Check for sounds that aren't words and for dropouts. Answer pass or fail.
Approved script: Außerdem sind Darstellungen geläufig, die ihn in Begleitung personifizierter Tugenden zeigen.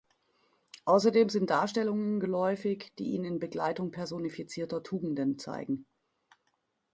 pass